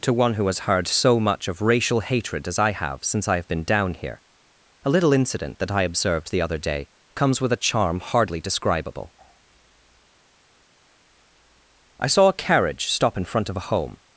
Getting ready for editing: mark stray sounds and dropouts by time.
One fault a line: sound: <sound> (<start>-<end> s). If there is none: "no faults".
no faults